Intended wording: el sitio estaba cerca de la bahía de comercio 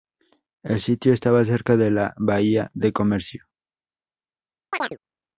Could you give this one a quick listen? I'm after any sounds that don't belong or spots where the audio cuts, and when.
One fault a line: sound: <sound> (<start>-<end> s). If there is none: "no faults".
sound: chirp (4.7-5.0 s)